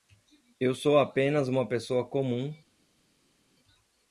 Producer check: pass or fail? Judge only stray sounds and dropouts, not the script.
pass